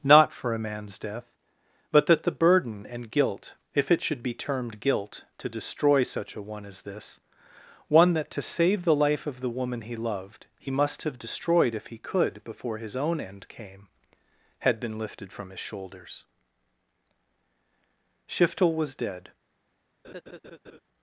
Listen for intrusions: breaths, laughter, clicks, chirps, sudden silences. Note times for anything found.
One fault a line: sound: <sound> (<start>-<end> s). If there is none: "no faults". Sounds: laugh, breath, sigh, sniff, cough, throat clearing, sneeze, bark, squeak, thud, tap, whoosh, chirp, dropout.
sound: laugh (20.0-20.8 s)